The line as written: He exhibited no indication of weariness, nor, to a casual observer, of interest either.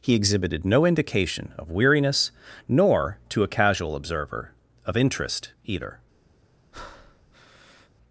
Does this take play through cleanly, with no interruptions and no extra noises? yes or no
no